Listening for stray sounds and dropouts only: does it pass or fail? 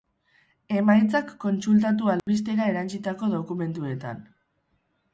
fail